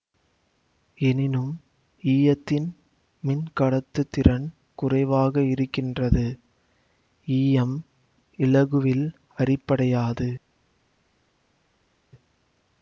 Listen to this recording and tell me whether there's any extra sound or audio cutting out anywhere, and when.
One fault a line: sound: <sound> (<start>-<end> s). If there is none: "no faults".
no faults